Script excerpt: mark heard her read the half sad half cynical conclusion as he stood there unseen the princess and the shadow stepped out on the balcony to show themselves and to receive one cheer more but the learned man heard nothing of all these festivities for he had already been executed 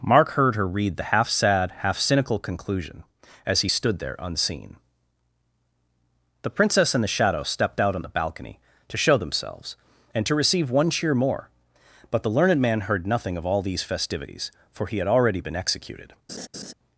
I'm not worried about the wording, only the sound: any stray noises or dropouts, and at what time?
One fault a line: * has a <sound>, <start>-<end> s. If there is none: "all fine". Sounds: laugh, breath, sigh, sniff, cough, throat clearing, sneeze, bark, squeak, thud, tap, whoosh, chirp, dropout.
* has a laugh, 16.3-16.7 s